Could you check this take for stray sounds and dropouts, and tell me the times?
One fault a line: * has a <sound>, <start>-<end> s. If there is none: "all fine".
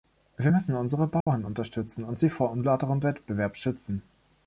* has a dropout, 1.2-1.3 s